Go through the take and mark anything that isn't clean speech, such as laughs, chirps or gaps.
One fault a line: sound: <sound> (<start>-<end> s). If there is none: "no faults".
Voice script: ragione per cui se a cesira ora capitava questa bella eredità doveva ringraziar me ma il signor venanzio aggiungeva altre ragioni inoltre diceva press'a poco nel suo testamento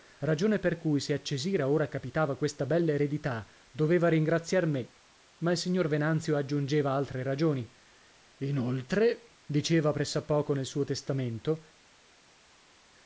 no faults